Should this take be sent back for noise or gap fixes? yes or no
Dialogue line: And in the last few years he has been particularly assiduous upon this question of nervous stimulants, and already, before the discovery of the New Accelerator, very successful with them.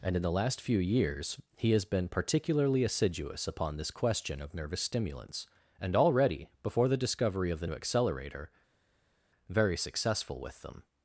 no